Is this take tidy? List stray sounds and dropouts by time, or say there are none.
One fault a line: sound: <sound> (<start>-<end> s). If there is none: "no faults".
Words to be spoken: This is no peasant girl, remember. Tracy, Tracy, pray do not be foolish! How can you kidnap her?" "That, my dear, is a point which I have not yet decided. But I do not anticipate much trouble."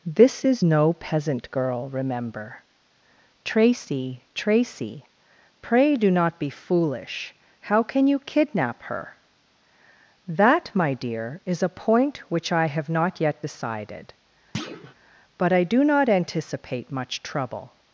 sound: thud (14.5-14.9 s)